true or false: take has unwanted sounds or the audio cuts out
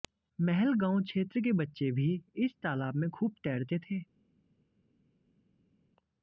false